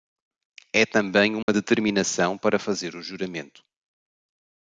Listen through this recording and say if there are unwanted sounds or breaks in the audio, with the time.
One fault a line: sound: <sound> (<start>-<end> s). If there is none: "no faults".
sound: dropout (1.4-1.5 s)